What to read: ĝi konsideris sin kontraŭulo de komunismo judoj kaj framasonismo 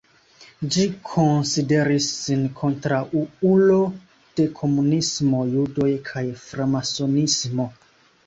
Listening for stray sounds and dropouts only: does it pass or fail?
pass